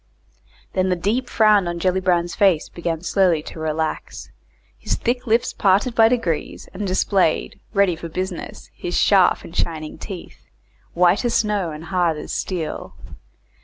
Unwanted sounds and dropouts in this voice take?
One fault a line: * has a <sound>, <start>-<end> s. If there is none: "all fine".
all fine